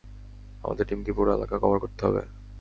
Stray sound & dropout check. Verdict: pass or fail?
pass